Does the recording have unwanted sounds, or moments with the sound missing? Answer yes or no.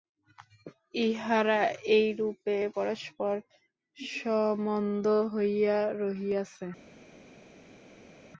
no